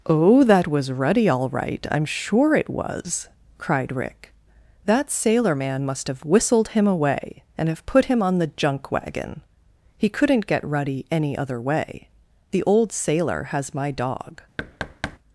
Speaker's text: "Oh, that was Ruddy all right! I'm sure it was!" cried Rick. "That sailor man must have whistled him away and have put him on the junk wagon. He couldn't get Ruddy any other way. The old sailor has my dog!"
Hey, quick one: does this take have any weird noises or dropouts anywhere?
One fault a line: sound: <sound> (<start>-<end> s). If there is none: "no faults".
sound: thud (14.6-15.2 s)